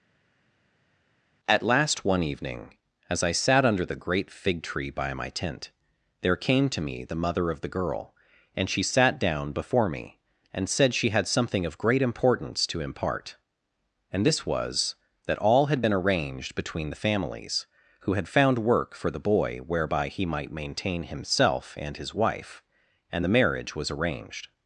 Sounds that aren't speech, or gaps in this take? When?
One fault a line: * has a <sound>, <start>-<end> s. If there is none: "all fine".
all fine